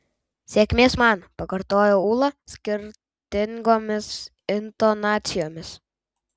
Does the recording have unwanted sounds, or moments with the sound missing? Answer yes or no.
no